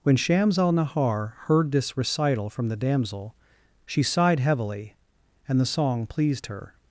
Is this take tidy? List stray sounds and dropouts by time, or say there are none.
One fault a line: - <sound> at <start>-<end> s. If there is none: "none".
none